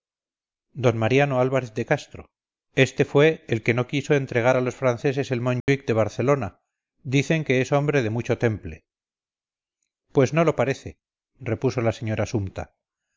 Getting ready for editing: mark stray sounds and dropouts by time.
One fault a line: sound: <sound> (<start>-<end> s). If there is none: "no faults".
sound: dropout (5.6-5.7 s)